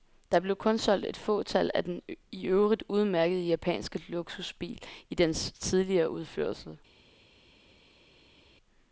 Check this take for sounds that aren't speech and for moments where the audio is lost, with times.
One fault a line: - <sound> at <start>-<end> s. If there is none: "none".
none